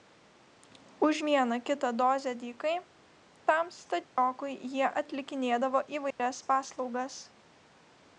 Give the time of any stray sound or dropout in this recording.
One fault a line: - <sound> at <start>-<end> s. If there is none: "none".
- dropout at 4.0-4.2 s
- dropout at 6.1-6.2 s